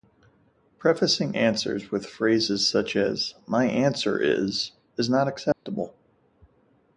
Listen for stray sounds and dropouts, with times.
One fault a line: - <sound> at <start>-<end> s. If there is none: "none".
- dropout at 5.5-5.7 s